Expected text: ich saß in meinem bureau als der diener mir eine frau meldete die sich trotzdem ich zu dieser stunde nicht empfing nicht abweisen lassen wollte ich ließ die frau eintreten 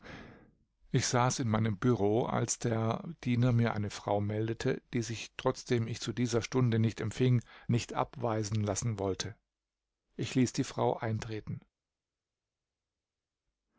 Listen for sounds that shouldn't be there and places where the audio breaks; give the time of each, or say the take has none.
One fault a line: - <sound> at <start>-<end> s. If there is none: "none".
none